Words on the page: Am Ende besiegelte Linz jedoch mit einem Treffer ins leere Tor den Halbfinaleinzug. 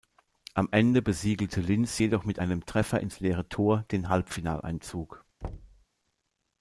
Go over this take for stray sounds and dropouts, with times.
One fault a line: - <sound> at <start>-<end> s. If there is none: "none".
- thud at 5.4-5.9 s